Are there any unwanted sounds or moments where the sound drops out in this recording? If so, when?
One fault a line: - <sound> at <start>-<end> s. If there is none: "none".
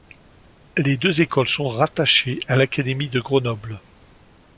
none